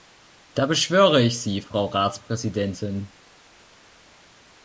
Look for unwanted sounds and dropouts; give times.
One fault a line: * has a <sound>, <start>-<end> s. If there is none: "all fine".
all fine